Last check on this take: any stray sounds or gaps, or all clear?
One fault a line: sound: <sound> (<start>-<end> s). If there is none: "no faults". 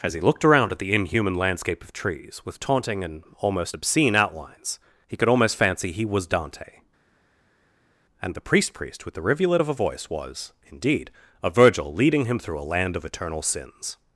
no faults